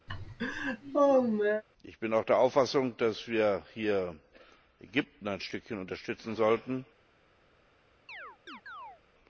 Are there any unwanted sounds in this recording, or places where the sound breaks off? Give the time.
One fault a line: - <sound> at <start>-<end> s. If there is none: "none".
- laugh at 0.1-1.6 s
- chirp at 8.1-9.0 s